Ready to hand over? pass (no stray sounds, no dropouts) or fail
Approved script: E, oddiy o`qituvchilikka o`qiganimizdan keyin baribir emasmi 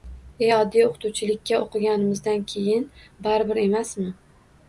pass